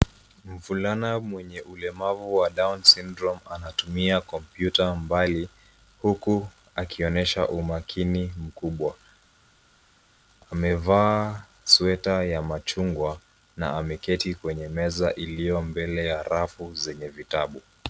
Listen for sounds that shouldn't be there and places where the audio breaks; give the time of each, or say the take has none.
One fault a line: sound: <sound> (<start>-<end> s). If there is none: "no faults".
no faults